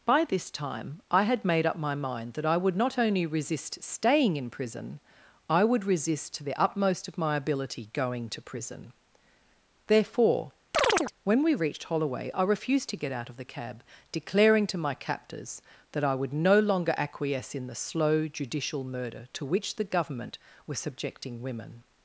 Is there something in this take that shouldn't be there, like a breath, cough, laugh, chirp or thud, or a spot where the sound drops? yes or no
yes